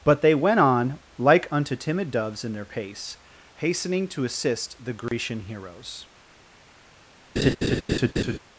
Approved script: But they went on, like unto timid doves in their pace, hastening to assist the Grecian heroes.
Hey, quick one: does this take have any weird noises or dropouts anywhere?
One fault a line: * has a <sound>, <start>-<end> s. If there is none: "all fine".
* has a dropout, 5.1-5.1 s
* has a laugh, 7.4-8.4 s